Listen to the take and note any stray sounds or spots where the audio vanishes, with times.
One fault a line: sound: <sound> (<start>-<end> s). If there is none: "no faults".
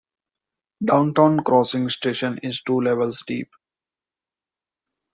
no faults